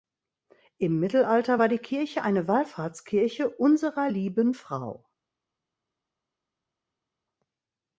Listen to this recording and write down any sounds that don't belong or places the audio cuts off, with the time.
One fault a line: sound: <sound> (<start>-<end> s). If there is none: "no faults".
no faults